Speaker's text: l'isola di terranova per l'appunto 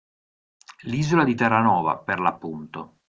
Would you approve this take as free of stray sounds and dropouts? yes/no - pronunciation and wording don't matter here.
yes